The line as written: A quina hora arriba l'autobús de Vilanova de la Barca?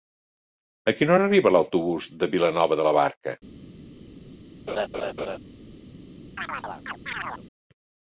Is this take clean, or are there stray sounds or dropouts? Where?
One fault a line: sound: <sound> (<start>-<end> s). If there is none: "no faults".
sound: laugh (4.7-5.4 s)
sound: chirp (6.4-7.4 s)